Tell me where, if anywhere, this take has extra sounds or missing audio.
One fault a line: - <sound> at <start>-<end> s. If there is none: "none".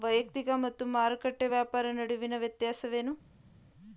none